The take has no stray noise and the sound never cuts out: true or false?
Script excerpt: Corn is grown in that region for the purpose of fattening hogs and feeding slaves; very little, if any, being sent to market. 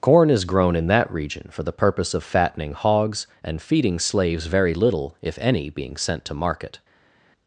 true